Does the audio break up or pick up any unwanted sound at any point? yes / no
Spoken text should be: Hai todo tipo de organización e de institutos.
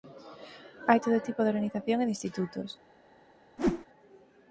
yes